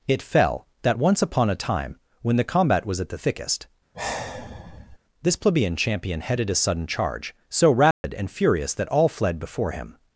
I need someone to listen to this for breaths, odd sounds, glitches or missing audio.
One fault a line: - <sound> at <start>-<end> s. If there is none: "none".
- sigh at 3.9-5.0 s
- dropout at 7.9-8.0 s